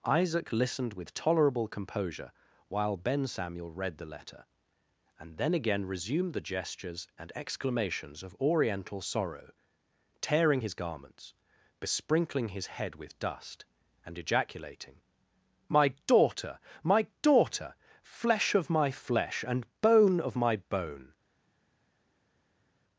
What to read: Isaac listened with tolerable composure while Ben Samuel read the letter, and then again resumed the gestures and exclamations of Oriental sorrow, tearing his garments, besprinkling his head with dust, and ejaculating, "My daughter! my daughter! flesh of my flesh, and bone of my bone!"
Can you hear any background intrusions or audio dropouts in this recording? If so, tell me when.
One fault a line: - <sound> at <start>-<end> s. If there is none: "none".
none